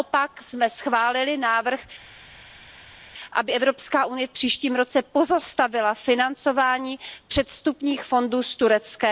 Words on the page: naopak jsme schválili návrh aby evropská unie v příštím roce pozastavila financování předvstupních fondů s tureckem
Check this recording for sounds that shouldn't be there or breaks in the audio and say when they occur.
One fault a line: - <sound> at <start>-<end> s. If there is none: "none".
none